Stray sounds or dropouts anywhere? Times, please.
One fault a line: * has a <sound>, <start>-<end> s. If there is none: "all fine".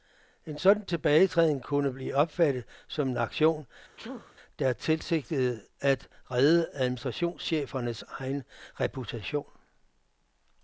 * has a sneeze, 4.0-4.3 s